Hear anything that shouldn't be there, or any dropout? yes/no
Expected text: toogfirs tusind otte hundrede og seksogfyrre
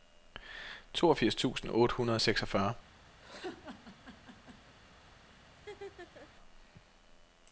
yes